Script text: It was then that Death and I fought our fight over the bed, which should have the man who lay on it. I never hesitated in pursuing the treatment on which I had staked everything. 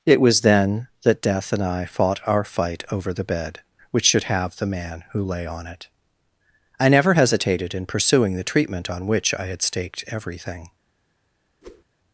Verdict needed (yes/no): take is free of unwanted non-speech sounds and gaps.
no